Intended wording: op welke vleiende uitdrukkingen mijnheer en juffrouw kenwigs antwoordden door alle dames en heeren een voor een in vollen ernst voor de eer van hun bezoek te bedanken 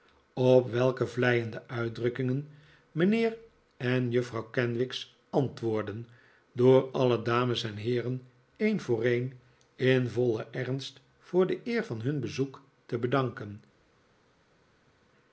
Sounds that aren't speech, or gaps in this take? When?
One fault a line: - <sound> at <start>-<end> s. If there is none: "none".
none